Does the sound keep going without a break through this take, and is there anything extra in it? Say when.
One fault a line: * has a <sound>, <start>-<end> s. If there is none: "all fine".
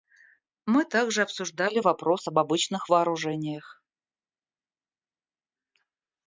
all fine